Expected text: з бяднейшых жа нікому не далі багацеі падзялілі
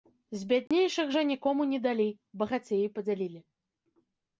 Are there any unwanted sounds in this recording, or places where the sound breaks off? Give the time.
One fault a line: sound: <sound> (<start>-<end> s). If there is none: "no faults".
sound: dropout (0.7-0.7 s)